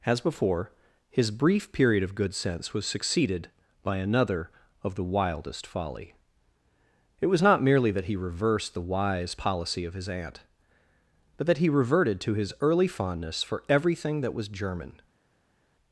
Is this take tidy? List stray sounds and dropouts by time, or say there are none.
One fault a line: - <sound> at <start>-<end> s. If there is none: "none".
none